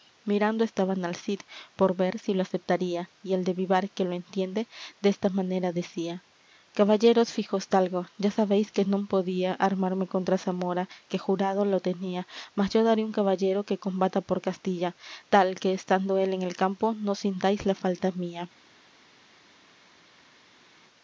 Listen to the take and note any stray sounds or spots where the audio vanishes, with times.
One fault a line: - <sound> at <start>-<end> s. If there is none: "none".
none